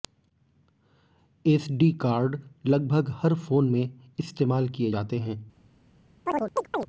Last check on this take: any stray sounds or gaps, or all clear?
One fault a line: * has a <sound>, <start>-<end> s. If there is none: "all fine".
* has a chirp, 6.3-6.9 s